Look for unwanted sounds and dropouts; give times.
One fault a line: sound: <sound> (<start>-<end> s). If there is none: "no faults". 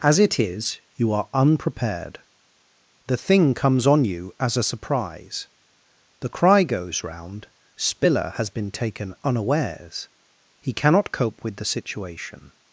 no faults